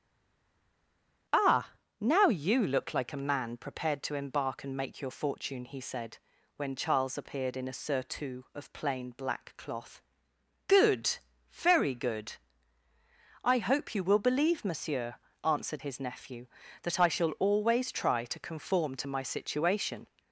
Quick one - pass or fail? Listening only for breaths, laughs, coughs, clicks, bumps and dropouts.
pass